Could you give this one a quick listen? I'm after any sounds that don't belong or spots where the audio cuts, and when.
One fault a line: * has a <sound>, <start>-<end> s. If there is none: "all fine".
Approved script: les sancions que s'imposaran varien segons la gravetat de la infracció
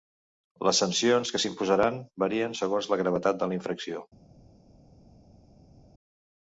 all fine